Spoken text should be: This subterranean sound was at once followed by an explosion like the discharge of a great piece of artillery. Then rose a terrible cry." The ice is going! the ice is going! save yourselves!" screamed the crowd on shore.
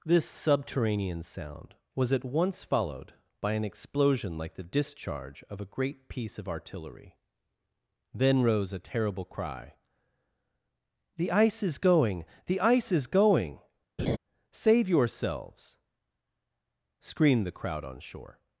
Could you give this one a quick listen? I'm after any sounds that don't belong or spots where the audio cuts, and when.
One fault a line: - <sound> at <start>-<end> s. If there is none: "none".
- laugh at 14.0-14.2 s